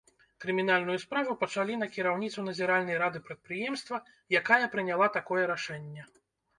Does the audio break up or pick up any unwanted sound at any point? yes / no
no